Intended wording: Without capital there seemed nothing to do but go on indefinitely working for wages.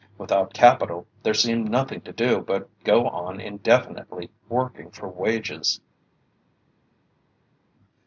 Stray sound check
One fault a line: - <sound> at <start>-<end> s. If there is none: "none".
none